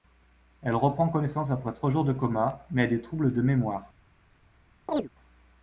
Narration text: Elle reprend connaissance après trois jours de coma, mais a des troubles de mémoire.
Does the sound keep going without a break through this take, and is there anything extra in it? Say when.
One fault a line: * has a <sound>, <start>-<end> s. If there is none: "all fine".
* has a chirp, 4.9-5.1 s